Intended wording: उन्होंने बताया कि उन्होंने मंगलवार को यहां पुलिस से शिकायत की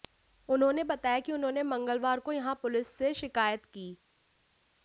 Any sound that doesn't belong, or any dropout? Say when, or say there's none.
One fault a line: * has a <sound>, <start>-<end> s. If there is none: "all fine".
all fine